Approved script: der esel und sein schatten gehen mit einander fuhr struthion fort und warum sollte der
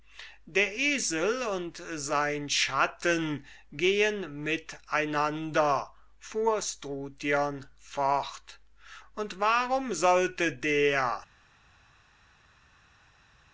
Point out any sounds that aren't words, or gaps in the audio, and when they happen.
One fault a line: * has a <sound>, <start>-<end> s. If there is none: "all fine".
all fine